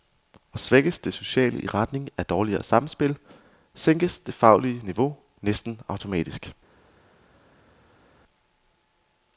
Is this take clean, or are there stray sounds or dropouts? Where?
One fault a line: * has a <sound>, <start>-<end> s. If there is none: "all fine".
all fine